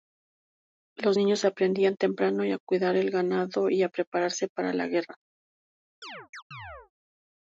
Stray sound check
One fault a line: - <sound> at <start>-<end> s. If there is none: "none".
- chirp at 6.0-6.9 s